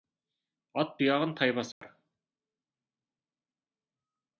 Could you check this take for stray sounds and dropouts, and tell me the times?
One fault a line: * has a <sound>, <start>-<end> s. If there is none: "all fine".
* has a dropout, 1.7-1.8 s